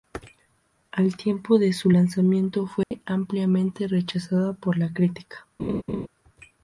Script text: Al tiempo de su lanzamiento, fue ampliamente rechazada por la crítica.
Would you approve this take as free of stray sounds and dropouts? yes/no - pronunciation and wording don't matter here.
no